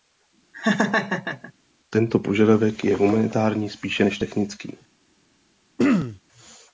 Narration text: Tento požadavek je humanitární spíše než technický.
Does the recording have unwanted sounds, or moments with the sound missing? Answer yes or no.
yes